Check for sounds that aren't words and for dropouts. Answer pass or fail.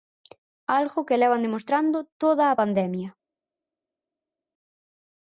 pass